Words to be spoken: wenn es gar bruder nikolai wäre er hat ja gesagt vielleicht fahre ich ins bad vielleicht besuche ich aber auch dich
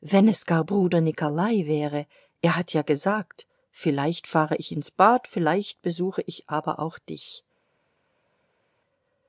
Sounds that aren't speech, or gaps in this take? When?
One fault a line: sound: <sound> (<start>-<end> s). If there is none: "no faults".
no faults